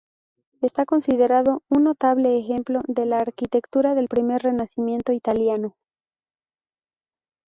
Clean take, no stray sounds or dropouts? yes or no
yes